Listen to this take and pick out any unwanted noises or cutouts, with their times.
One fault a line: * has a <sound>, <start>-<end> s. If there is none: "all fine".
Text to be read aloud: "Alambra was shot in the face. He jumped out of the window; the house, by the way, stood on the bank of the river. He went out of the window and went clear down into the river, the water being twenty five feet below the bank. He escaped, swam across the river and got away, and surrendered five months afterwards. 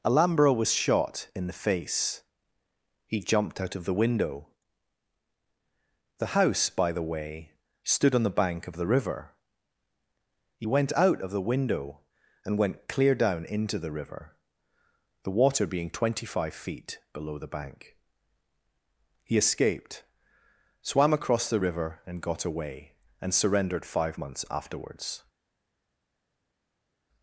all fine